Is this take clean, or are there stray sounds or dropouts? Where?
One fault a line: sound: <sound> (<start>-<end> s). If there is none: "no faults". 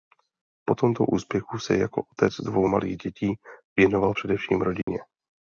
sound: dropout (4.8-4.9 s)